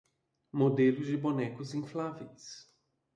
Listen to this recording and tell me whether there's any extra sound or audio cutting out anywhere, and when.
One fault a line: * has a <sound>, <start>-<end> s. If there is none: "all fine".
all fine